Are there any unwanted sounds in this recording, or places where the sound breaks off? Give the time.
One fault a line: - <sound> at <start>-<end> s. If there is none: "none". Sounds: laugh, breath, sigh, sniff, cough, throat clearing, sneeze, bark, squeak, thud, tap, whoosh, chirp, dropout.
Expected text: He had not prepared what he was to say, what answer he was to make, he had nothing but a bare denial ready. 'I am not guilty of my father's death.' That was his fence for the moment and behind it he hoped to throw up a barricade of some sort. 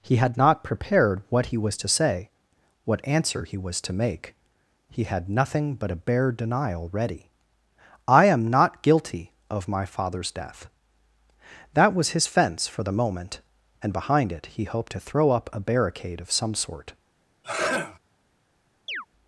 - sneeze at 17.4-18.0 s
- chirp at 18.9-19.1 s